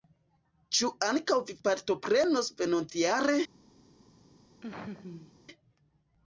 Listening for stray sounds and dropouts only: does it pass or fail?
fail